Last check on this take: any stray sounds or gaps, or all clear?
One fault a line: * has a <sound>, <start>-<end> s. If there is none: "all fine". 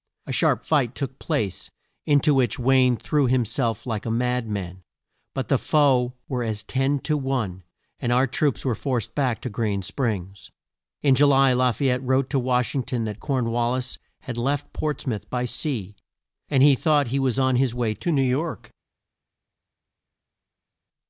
all fine